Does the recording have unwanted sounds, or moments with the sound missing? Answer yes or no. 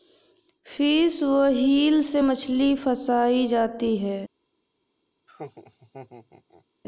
yes